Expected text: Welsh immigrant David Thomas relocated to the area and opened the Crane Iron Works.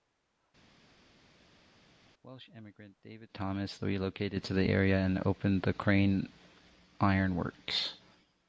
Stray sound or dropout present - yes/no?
no